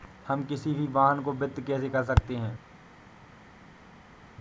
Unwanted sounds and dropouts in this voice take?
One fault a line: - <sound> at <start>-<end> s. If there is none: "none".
none